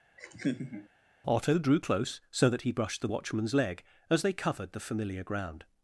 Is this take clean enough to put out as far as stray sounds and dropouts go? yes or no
no